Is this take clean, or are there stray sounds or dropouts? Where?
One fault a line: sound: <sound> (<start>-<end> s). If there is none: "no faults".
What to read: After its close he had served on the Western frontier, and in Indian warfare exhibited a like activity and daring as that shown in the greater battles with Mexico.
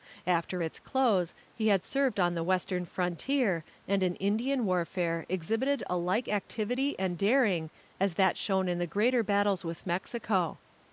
no faults